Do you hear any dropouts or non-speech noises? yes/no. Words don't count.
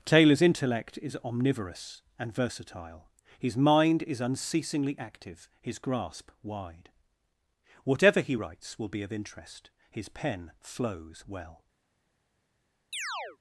yes